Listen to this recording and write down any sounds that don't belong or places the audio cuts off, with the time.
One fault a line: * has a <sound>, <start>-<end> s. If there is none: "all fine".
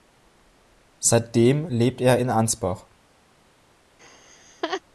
* has a laugh, 4.0-4.8 s